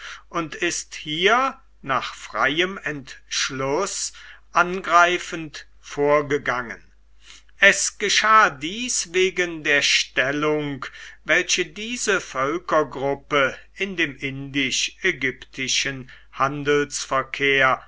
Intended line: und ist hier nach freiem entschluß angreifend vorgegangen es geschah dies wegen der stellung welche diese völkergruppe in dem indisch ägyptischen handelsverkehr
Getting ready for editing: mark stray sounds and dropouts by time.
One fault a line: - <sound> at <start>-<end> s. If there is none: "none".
none